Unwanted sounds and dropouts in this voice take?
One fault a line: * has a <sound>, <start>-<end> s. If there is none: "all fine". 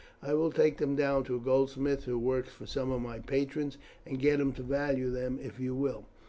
all fine